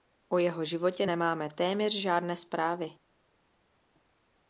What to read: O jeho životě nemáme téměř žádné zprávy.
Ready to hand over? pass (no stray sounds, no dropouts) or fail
pass